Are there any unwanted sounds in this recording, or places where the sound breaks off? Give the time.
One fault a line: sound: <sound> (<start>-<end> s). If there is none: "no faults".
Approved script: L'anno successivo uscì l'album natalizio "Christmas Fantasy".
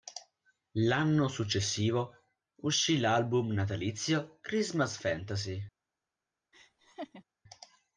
sound: laugh (6.5-7.2 s)